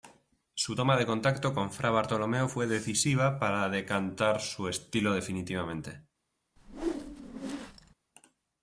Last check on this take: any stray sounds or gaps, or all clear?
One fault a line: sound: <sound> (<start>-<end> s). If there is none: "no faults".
sound: whoosh (6.6-7.9 s)